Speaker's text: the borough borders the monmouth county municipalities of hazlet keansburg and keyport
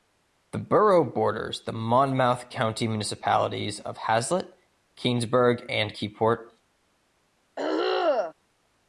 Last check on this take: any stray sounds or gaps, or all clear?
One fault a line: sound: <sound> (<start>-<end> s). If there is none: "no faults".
sound: throat clearing (7.6-8.3 s)